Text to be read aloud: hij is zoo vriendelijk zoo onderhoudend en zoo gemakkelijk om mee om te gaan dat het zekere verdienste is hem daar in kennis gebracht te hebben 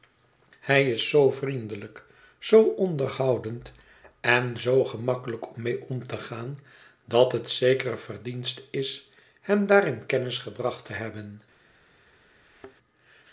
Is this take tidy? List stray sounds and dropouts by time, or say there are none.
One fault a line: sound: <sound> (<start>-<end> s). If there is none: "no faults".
sound: thud (12.4-12.8 s)